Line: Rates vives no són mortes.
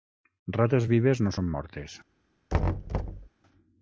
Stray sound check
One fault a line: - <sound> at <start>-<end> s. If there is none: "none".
- thud at 2.5-3.3 s